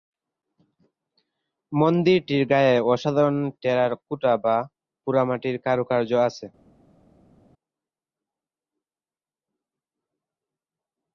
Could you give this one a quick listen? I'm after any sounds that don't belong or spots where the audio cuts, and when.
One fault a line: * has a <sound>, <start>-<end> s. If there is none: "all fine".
all fine